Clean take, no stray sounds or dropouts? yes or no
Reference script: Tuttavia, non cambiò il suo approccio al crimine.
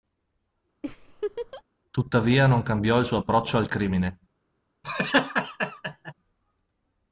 no